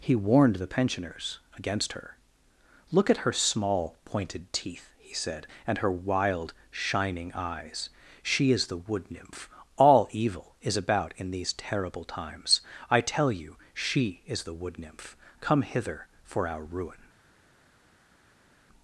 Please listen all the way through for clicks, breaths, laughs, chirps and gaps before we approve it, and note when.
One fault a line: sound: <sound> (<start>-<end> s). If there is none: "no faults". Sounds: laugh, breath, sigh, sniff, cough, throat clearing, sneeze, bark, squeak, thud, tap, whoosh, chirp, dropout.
no faults